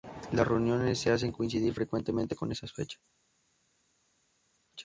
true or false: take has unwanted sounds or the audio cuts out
false